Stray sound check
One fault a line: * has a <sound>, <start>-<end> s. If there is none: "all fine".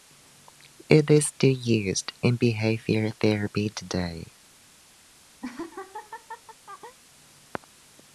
* has a laugh, 5.4-7.0 s